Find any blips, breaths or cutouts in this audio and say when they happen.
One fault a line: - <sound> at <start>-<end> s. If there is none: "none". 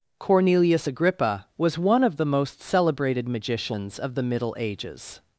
none